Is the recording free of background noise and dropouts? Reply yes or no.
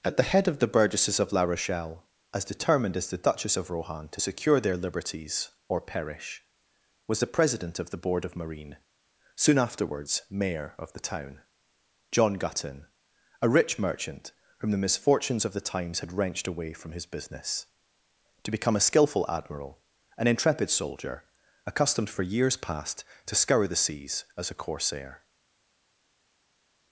yes